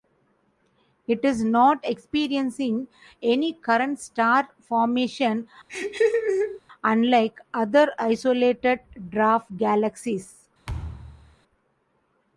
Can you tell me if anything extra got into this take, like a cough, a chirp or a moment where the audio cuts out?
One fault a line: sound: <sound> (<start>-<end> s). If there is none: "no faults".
sound: laugh (5.7-6.6 s)
sound: thud (10.7-11.4 s)